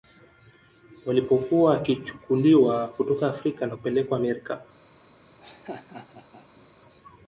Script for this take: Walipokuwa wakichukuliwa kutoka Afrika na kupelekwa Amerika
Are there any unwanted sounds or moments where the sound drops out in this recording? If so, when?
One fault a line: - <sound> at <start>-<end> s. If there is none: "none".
- laugh at 5.4-6.7 s